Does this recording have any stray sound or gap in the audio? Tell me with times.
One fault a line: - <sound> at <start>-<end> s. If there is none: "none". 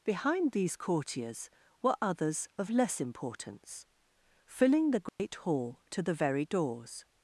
- dropout at 5.1-5.2 s